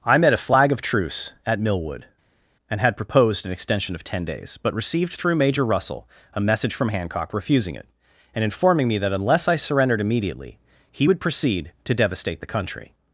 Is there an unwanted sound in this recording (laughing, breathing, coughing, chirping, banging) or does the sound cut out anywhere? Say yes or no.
no